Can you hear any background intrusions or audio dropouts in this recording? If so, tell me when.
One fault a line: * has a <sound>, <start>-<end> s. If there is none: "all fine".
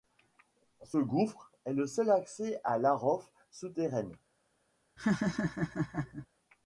* has a laugh, 5.0-6.3 s